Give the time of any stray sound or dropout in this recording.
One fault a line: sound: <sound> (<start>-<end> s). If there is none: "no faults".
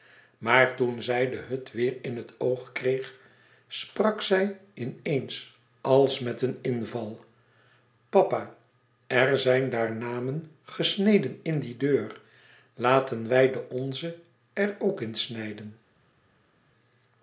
no faults